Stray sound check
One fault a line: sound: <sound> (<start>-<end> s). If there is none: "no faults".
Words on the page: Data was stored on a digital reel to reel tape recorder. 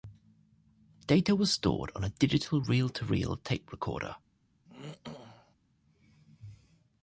sound: throat clearing (4.7-5.6 s)